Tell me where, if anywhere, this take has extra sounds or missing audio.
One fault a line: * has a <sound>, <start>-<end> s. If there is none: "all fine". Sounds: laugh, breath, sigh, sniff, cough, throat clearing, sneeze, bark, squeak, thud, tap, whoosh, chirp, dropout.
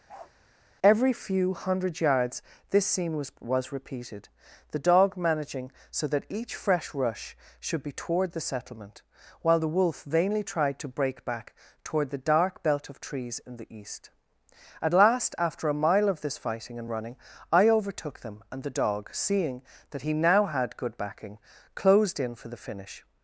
* has a bark, 0.1-0.3 s